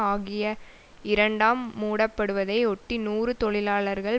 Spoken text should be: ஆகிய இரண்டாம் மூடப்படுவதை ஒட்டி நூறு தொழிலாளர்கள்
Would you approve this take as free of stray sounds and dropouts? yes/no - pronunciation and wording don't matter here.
yes